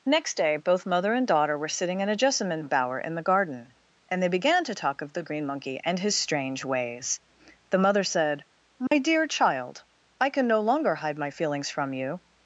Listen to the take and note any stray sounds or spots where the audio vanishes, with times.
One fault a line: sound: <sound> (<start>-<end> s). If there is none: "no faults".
sound: dropout (8.9-8.9 s)